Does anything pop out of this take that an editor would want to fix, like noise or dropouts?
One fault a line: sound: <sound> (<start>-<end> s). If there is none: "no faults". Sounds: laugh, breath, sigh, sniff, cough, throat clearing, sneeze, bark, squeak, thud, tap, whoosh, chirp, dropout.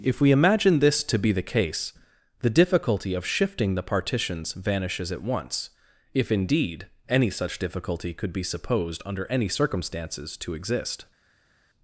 no faults